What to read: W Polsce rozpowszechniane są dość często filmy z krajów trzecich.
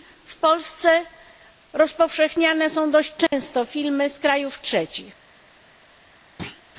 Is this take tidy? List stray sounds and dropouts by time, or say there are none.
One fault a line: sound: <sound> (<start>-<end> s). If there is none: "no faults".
sound: dropout (3.3-3.3 s)
sound: thud (6.4-6.6 s)